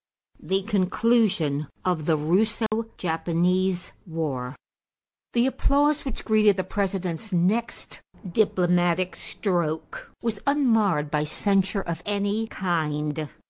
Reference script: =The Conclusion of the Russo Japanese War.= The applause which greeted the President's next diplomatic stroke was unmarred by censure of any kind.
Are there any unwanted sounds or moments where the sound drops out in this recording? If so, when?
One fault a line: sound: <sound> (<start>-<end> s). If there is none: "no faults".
sound: dropout (2.7-2.7 s)